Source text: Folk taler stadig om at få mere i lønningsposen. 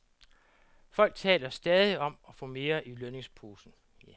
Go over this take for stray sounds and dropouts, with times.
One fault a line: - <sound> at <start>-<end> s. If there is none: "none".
none